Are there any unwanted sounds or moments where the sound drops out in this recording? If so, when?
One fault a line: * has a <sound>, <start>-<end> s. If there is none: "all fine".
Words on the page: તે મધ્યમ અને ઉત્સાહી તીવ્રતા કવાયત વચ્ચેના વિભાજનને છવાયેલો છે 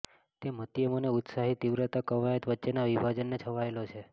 all fine